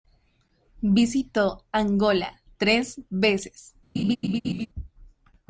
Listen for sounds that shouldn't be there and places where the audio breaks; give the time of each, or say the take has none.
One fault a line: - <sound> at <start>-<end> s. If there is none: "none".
- laugh at 4.0-4.7 s